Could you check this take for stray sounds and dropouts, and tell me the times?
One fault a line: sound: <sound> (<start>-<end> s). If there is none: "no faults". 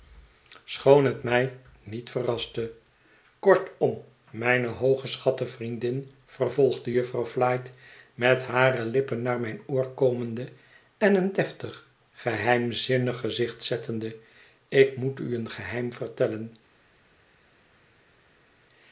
no faults